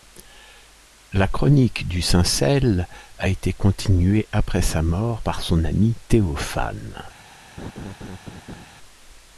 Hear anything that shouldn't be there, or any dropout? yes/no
yes